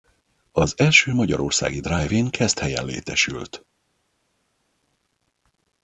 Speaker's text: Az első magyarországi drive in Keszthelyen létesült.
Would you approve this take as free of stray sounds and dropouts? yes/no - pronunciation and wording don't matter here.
yes